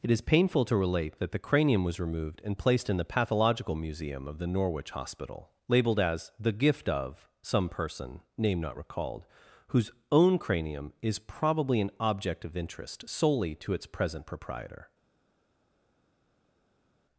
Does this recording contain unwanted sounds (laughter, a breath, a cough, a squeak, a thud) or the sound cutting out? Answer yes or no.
no